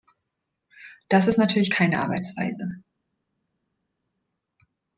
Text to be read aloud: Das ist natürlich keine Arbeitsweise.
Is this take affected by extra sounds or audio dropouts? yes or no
no